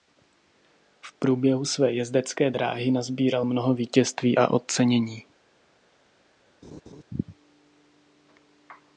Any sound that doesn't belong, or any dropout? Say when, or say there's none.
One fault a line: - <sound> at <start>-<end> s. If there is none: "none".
- laugh at 6.6-7.0 s